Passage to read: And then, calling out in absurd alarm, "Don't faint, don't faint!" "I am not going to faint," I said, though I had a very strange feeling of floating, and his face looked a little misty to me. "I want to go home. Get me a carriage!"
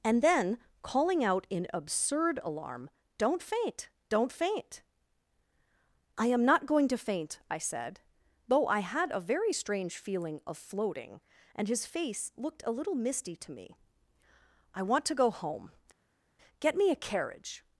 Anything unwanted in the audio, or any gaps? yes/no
no